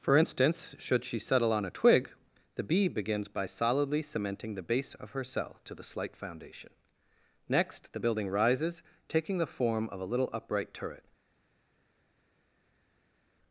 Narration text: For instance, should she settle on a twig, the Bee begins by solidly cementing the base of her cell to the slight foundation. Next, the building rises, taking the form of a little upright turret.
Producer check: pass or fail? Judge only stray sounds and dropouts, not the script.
pass